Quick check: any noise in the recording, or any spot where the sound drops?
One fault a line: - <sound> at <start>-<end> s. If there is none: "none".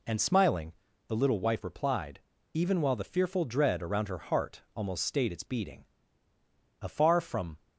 none